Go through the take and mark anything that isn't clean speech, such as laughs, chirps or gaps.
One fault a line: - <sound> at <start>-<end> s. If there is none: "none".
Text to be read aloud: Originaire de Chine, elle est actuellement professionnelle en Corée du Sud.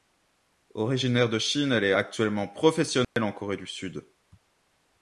- dropout at 3.0-3.2 s